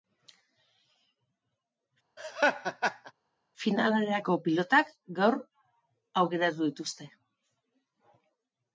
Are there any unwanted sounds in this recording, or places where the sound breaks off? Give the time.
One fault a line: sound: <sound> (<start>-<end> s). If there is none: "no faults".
sound: laugh (2.2-3.1 s)